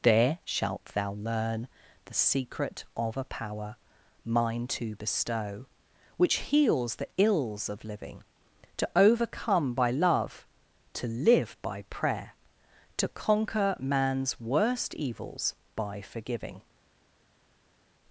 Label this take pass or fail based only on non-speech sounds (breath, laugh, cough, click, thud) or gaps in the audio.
pass